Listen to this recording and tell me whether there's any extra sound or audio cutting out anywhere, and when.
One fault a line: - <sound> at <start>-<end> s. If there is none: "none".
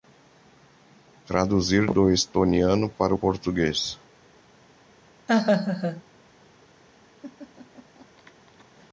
- laugh at 5.3-6.0 s
- laugh at 7.2-8.7 s